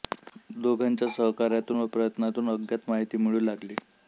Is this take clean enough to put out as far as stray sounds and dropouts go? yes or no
yes